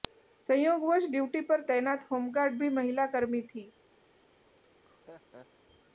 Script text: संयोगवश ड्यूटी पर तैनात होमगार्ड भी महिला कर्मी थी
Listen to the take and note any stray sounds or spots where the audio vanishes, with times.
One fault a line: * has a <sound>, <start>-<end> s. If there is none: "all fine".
* has a laugh, 4.6-5.5 s